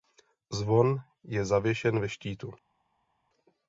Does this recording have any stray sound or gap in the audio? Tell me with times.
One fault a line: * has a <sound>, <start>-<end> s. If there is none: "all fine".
all fine